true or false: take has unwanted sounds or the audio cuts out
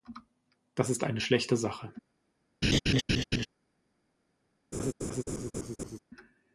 true